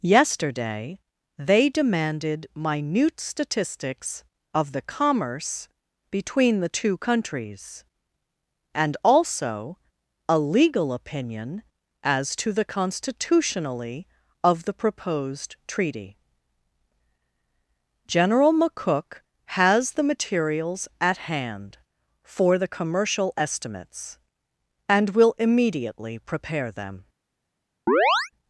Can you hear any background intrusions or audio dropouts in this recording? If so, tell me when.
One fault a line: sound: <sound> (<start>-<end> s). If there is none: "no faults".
sound: chirp (27.9-28.3 s)